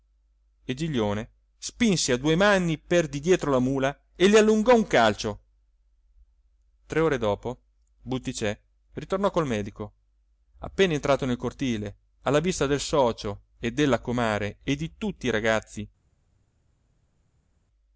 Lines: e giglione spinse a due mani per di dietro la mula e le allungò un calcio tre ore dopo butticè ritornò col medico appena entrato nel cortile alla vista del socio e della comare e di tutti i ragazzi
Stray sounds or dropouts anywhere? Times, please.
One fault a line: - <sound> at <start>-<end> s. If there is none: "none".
none